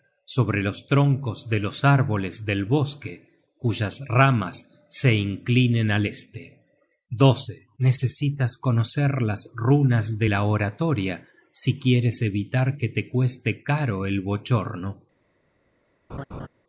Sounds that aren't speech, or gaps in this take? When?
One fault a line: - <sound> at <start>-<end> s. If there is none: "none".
- laugh at 16.1-16.5 s